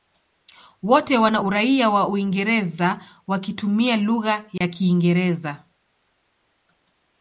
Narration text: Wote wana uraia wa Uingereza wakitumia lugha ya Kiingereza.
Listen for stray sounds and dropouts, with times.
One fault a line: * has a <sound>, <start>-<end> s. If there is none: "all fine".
* has a dropout, 4.6-4.6 s